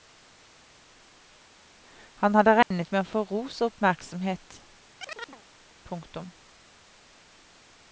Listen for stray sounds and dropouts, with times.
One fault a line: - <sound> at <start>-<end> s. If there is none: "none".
- dropout at 2.6-2.7 s
- chirp at 5.0-5.4 s